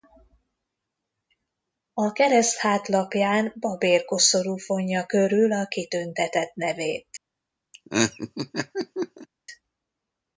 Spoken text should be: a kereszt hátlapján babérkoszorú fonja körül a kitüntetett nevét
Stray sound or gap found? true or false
true